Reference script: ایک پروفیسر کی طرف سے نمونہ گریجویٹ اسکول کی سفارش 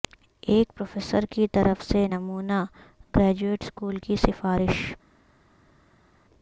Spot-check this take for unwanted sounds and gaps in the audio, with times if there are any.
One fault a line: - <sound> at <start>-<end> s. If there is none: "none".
none